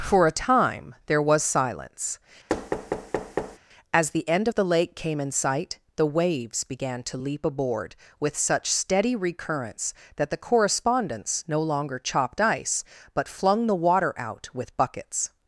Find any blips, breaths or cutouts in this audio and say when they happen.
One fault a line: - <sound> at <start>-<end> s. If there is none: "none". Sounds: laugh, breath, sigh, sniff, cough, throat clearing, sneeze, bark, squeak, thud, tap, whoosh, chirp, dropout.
- thud at 2.5-3.6 s